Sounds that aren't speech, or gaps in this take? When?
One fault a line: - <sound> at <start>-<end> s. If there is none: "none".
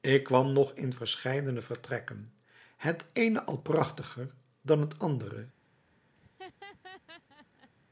- laugh at 6.1-7.7 s